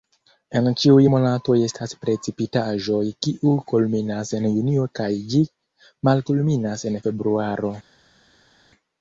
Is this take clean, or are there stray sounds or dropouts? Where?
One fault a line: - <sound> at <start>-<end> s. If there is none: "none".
none